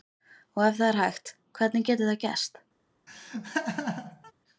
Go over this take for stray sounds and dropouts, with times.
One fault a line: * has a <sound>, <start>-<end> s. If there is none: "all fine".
* has a laugh, 3.1-4.3 s